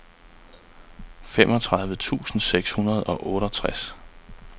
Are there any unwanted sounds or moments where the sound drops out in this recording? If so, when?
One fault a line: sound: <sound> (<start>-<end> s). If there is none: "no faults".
no faults